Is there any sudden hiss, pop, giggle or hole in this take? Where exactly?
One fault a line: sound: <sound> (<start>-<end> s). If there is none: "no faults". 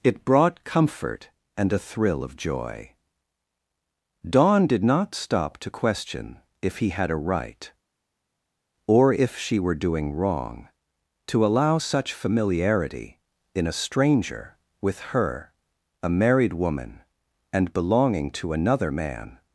no faults